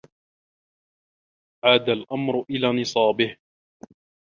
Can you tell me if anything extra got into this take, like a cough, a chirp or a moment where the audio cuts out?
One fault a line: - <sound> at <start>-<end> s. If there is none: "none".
none